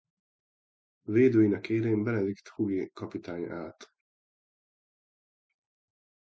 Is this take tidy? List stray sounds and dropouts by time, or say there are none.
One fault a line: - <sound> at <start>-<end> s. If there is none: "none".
none